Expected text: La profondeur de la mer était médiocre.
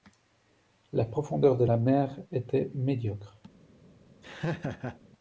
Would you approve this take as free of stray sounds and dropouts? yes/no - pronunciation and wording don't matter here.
no